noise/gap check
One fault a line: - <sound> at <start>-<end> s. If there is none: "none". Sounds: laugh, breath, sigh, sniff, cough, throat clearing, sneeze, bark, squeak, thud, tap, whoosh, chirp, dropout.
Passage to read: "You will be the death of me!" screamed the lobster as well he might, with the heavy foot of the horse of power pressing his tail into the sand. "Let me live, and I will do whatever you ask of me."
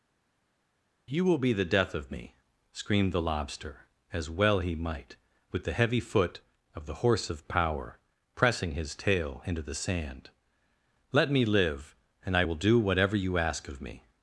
none